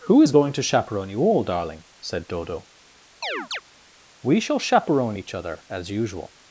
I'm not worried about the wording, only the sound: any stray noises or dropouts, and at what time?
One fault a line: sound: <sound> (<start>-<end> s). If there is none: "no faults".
sound: chirp (3.2-3.6 s)